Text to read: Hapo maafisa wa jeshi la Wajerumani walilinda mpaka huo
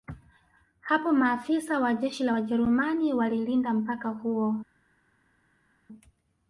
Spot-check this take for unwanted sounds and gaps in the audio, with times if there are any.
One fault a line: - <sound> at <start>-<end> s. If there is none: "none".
none